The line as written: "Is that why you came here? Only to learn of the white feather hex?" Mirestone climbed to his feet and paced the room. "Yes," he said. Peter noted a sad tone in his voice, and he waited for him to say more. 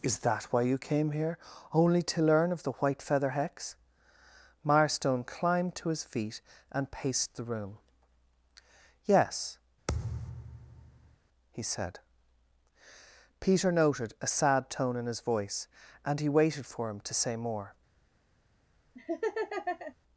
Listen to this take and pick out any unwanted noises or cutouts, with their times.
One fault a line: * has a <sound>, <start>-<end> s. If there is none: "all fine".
* has a thud, 9.9-11.2 s
* has a laugh, 18.9-19.9 s